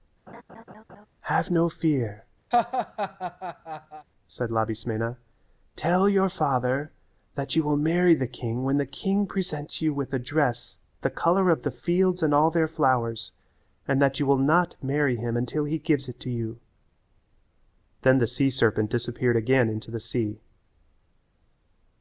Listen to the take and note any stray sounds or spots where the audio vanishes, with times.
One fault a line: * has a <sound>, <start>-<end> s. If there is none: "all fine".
* has a laugh, 0.3-1.1 s
* has a laugh, 2.5-4.1 s